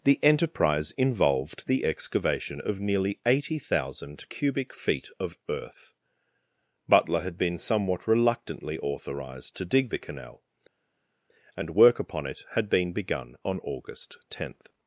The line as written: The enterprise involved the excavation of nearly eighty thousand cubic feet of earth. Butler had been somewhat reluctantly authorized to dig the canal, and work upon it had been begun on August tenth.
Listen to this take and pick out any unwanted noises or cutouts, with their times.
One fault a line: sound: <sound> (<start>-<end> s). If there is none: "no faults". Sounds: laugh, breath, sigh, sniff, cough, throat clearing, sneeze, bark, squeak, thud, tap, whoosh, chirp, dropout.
no faults